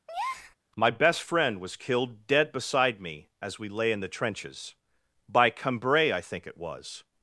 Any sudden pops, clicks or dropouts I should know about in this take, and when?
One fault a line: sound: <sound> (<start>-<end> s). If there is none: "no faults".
sound: breath (0.1-0.6 s)